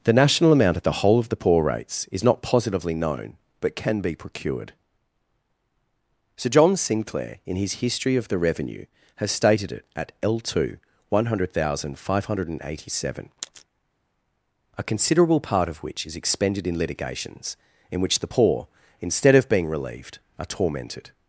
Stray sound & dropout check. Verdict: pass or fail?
pass